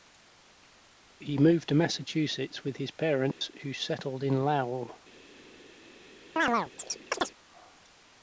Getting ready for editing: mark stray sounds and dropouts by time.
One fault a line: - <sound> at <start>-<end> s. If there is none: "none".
- dropout at 3.3-3.4 s
- chirp at 6.4-7.3 s